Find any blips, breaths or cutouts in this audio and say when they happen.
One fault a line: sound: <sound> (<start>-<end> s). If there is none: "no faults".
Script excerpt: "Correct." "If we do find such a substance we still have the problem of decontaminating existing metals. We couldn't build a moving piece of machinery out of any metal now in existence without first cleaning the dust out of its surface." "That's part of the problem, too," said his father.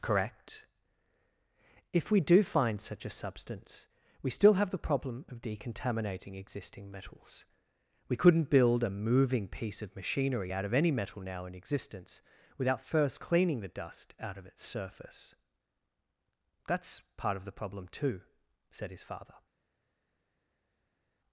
no faults